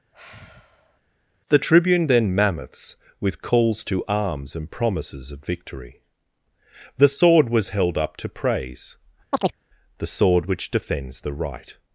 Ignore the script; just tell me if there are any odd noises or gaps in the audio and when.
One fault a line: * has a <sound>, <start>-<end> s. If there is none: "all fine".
* has a sigh, 0.1-1.0 s
* has a chirp, 9.3-9.6 s